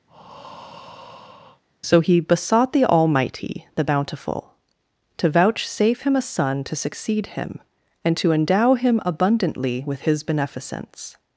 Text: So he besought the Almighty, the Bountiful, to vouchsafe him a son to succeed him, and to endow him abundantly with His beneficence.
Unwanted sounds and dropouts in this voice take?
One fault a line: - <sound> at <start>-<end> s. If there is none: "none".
- breath at 0.1-1.6 s